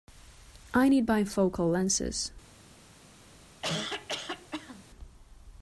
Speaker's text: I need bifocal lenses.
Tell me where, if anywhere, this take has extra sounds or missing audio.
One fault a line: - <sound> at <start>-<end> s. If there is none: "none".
- cough at 3.6-4.8 s